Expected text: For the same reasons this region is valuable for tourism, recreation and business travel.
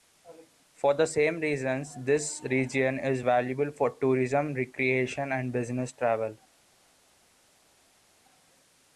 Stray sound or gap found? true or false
false